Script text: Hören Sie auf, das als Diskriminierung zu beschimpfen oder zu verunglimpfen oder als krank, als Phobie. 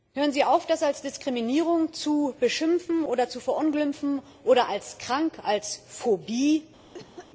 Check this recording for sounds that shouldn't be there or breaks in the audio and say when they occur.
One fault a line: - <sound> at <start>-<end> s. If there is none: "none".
- cough at 6.9-7.3 s